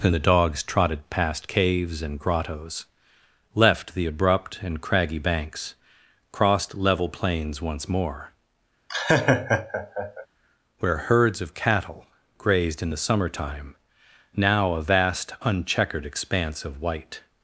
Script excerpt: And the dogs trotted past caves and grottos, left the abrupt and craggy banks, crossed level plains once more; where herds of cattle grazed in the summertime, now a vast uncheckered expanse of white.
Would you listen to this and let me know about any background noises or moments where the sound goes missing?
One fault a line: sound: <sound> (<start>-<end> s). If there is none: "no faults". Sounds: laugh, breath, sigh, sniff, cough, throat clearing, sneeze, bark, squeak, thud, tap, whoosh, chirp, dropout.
sound: laugh (8.9-10.3 s)